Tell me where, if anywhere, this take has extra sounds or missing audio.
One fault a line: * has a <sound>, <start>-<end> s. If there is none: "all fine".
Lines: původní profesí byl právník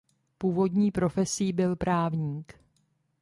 all fine